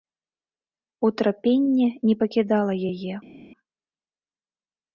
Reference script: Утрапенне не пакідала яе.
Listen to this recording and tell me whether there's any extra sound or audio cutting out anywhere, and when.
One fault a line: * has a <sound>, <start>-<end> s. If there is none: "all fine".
all fine